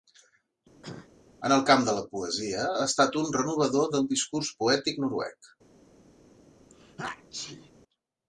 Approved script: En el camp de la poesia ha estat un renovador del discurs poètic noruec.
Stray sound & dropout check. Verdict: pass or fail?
fail